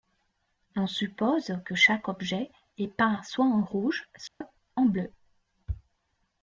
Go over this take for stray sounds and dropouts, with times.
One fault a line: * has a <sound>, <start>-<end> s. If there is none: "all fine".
* has a dropout, 4.3-4.4 s